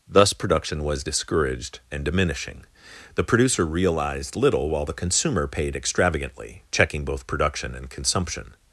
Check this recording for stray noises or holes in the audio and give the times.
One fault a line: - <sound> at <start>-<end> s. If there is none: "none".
none